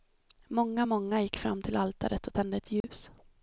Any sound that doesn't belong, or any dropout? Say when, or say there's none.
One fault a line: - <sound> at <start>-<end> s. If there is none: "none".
- dropout at 2.8-2.8 s